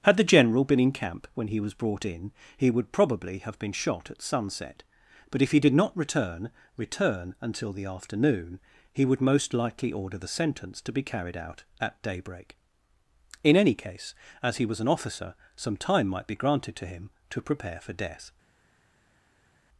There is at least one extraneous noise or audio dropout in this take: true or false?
false